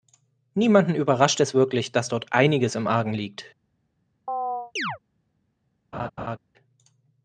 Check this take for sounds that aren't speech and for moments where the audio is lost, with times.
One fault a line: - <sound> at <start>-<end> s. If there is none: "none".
- chirp at 4.3-5.0 s
- laugh at 5.9-6.4 s